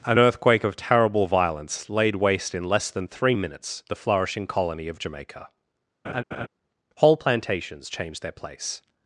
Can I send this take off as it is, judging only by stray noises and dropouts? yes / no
no